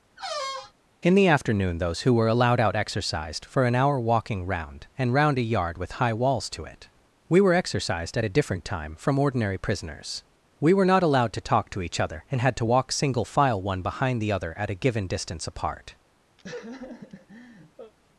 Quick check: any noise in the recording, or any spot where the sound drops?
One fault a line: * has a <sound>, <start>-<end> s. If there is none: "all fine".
* has a squeak, 0.2-0.7 s
* has a laugh, 16.4-17.9 s